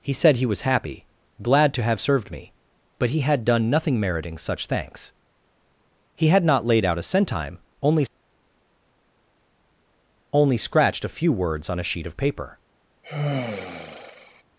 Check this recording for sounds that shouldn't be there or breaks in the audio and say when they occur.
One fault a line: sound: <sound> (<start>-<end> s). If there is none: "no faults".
sound: sigh (13.0-14.4 s)